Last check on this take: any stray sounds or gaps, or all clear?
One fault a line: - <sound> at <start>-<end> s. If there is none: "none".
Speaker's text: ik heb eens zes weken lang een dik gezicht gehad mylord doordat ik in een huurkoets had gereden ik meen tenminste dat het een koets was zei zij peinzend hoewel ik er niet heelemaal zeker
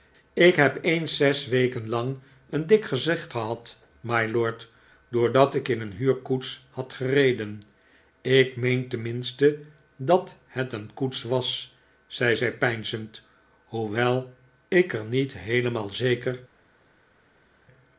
none